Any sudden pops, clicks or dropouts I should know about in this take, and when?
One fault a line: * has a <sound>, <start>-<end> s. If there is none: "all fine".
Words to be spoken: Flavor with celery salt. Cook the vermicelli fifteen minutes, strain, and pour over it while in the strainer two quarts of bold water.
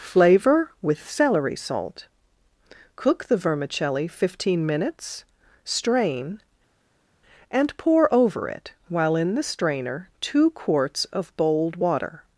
all fine